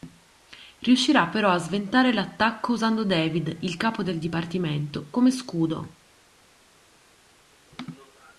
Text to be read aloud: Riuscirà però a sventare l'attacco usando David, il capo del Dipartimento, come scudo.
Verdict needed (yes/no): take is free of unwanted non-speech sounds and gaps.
yes